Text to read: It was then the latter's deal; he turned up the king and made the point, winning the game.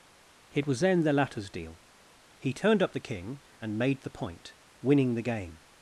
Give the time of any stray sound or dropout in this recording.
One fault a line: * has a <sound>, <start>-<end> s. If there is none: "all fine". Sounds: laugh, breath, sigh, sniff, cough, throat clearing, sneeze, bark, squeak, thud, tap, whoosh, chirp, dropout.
all fine